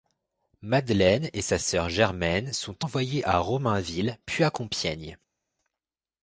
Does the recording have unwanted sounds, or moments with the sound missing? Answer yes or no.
no